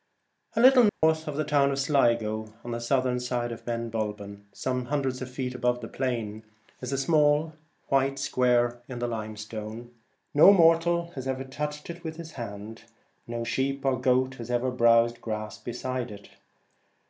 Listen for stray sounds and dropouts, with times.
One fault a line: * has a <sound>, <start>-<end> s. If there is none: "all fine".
* has a dropout, 0.9-1.0 s